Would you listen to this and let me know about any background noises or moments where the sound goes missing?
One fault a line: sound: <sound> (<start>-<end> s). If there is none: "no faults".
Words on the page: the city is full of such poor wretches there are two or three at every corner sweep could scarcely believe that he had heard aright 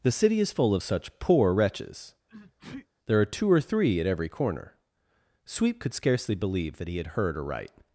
sound: sneeze (2.3-2.9 s)